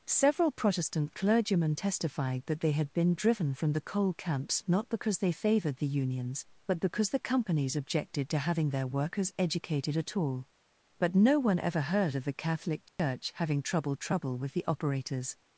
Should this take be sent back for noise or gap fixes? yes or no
yes